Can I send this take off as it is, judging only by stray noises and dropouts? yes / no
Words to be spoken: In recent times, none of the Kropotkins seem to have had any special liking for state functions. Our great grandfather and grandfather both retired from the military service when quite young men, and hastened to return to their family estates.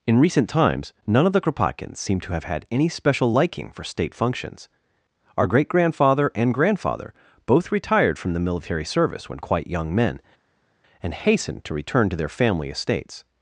yes